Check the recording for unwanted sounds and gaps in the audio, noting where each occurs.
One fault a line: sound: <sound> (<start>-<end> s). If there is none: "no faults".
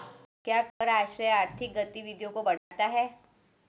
sound: dropout (0.7-0.8 s)
sound: dropout (2.6-2.7 s)